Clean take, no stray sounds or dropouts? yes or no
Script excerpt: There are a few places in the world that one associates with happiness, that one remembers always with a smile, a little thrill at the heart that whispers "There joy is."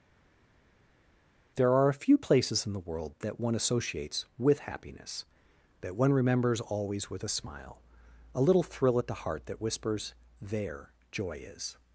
yes